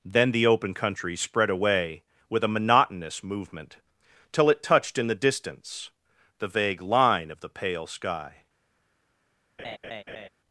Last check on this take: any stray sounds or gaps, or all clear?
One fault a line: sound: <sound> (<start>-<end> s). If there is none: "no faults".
sound: laugh (9.6-10.3 s)